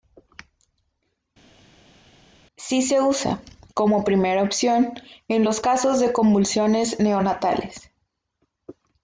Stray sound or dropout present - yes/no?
no